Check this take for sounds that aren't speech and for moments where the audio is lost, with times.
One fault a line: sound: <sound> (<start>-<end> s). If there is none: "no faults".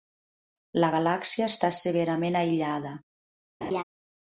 sound: laugh (3.6-3.8 s)